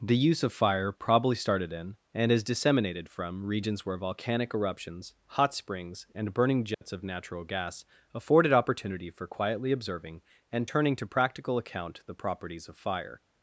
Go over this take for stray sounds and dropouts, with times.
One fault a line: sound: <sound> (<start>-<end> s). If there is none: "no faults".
sound: dropout (6.7-6.8 s)